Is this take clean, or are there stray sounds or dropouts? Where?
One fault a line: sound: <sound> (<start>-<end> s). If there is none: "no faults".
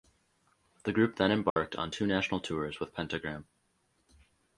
sound: dropout (1.5-1.6 s)